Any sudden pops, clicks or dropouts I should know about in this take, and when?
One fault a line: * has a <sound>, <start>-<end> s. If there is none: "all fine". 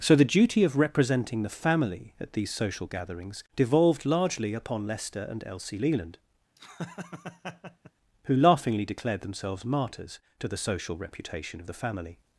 * has a laugh, 6.6-7.9 s